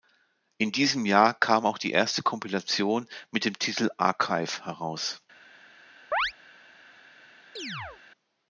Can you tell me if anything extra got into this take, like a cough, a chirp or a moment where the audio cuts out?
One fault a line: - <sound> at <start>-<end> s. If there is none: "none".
- chirp at 6.1-6.3 s
- chirp at 7.6-8.0 s